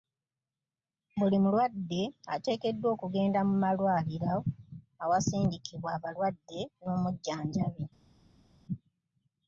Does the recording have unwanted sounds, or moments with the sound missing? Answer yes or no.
no